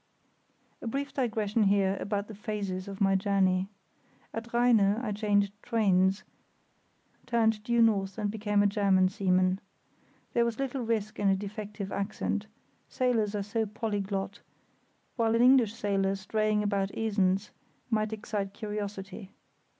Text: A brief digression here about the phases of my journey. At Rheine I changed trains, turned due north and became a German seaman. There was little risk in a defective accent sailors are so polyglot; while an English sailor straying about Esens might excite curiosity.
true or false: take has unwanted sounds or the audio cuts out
false